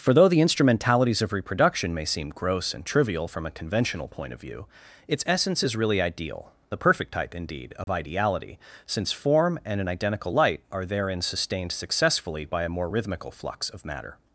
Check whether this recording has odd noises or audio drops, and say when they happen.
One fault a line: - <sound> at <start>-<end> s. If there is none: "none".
- dropout at 7.8-7.9 s